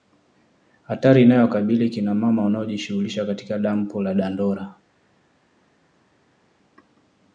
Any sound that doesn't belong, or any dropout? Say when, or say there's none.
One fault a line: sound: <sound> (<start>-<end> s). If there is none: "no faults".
no faults